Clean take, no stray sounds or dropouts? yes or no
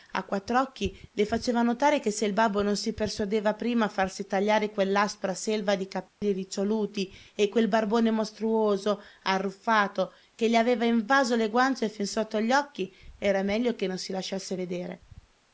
no